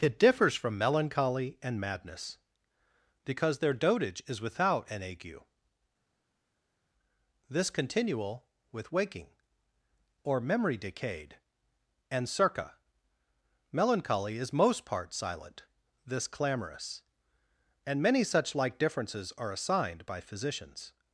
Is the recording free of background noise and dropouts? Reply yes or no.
yes